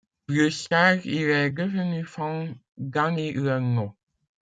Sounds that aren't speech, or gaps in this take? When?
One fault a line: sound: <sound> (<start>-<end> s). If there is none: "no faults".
no faults